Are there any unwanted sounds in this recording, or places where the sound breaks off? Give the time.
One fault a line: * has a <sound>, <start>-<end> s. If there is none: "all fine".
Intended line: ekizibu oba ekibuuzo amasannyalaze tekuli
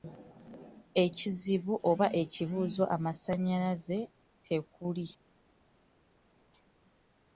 all fine